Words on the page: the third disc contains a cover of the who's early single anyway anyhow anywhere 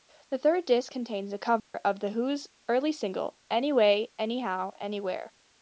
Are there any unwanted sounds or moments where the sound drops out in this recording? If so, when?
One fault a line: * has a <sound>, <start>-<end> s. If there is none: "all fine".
* has a dropout, 1.6-1.7 s